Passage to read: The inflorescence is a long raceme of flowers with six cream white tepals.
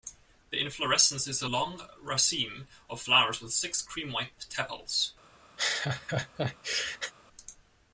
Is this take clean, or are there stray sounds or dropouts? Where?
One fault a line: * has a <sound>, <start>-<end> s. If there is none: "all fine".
* has a laugh, 5.6-7.1 s